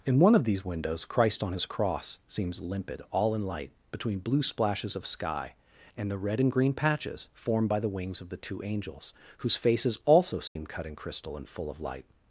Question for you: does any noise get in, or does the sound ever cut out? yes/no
yes